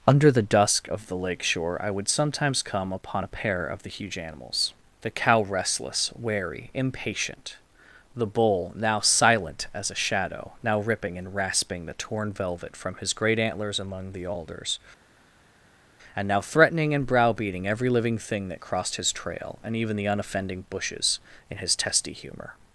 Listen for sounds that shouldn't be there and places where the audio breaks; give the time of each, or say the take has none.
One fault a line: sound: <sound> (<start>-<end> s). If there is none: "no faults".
no faults